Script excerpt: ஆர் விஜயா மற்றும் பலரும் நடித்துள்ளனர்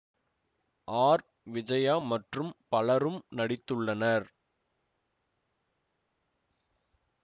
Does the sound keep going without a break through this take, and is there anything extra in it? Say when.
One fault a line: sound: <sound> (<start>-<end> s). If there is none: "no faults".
no faults